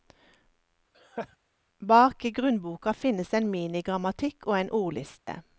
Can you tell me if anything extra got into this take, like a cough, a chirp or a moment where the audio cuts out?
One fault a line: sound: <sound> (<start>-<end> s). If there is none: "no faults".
sound: laugh (0.9-1.4 s)
sound: dropout (5.2-5.3 s)